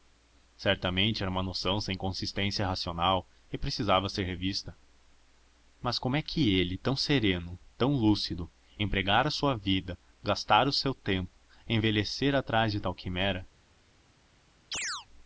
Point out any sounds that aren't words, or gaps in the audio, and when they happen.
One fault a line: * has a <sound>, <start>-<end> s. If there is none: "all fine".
* has a chirp, 14.7-15.1 s